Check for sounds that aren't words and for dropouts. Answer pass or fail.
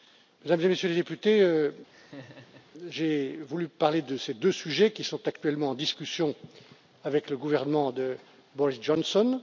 fail